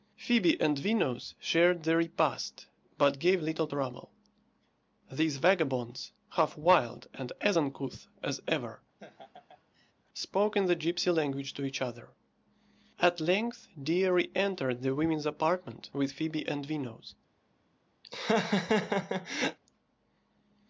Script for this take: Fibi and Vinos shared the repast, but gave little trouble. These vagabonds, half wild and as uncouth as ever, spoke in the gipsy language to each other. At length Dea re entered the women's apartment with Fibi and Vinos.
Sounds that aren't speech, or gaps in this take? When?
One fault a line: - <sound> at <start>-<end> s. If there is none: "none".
- laugh at 9.0-9.9 s
- laugh at 18.0-19.6 s